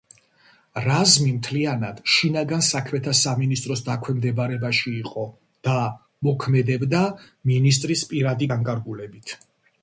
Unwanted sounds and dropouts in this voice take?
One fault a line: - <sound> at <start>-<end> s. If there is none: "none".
none